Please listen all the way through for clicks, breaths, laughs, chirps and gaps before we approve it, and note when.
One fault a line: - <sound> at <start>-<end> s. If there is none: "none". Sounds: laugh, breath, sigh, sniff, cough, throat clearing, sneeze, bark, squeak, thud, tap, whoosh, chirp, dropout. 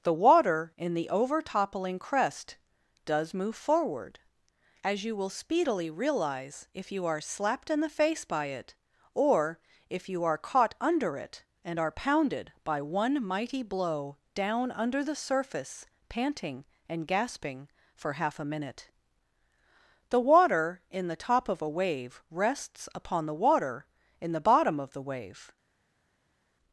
none